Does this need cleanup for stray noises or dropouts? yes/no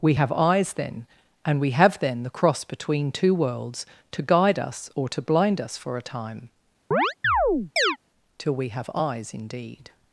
yes